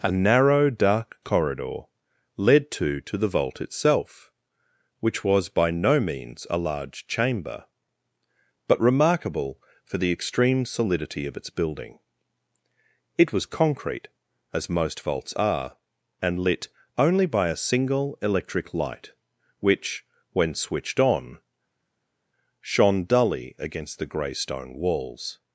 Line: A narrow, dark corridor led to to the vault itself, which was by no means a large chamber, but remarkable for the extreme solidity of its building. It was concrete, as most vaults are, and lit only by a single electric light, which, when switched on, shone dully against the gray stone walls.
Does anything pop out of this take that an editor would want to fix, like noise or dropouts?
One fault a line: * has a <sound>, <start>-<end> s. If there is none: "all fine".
all fine